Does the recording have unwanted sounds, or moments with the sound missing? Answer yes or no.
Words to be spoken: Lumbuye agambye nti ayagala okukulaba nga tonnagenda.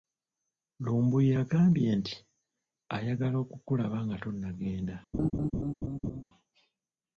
yes